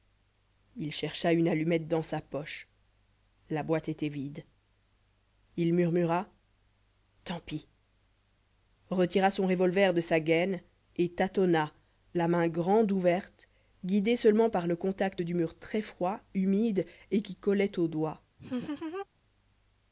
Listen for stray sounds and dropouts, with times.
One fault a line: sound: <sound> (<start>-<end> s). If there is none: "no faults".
sound: laugh (18.4-19.1 s)